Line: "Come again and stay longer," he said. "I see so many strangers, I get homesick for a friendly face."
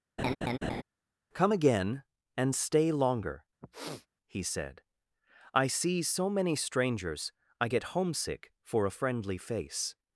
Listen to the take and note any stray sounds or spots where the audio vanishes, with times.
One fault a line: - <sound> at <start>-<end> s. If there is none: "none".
- laugh at 0.2-0.8 s
- sniff at 3.6-4.1 s